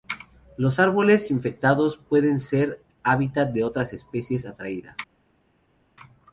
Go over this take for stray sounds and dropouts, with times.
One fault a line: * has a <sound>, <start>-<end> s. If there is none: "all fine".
all fine